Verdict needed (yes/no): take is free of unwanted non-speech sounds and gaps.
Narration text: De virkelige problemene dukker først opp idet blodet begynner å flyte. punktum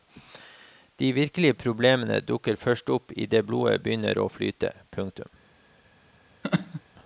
no